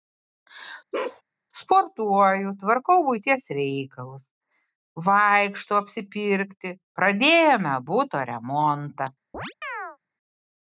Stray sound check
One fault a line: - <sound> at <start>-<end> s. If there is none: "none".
- bark at 0.9-1.2 s
- chirp at 9.3-10.0 s